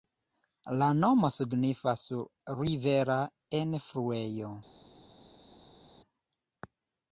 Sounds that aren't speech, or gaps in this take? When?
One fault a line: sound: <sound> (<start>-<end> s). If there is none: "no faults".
no faults